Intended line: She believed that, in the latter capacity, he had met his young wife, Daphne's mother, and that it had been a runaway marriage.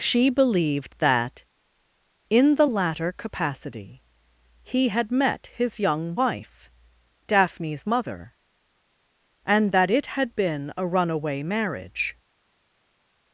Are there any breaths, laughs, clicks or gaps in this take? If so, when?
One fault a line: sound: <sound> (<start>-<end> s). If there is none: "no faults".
no faults